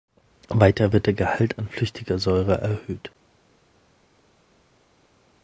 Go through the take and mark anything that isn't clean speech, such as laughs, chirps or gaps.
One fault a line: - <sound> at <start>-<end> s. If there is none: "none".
none